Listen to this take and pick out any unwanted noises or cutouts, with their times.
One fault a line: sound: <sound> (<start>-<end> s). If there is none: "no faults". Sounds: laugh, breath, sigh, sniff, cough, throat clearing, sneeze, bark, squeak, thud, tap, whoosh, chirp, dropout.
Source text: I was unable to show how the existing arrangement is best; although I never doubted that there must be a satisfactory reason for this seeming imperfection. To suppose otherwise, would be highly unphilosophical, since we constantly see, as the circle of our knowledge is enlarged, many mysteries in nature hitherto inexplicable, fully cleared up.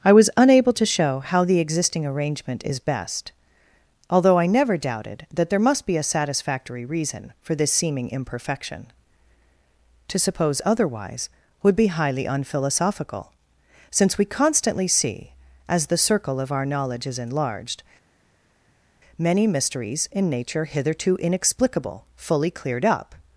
no faults